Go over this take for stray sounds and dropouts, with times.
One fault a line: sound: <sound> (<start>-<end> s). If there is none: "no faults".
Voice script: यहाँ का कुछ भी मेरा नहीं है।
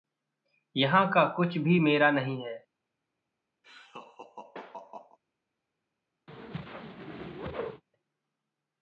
sound: laugh (3.6-5.2 s)
sound: whoosh (6.3-7.8 s)